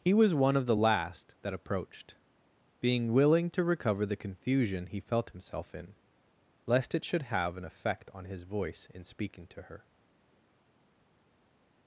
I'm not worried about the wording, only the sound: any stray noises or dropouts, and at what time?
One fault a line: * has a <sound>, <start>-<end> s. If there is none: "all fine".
all fine